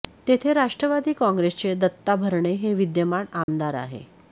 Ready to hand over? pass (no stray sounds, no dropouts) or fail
fail